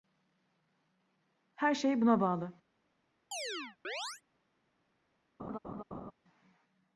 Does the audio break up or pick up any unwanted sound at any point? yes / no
yes